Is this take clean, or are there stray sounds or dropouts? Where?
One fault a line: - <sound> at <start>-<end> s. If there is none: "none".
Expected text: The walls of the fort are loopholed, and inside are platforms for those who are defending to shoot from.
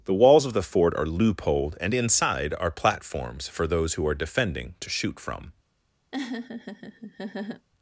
- laugh at 6.1-7.7 s